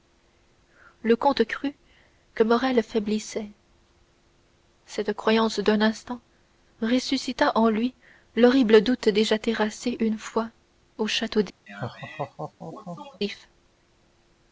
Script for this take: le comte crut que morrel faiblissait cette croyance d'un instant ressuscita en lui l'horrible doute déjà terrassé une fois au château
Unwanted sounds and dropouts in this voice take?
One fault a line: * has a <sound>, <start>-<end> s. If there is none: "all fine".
* has a laugh, 11.7-13.2 s